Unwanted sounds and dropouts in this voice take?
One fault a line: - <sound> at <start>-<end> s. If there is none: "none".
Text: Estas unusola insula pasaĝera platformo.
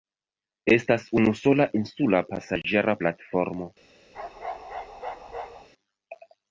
- bark at 4.1-5.7 s